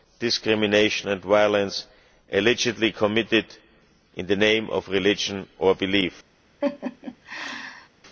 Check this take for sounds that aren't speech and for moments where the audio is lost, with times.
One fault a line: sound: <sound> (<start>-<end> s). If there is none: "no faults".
sound: laugh (6.6-7.9 s)